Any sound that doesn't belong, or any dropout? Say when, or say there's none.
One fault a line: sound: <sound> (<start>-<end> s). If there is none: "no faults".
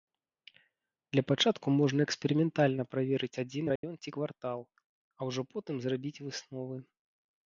sound: dropout (3.8-3.8 s)